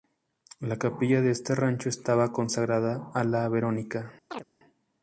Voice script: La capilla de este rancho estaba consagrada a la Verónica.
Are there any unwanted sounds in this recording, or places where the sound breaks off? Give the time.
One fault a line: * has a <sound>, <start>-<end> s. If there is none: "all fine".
* has a chirp, 4.3-4.4 s